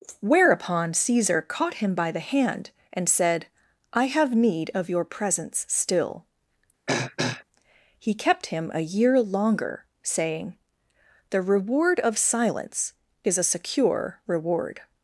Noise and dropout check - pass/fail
fail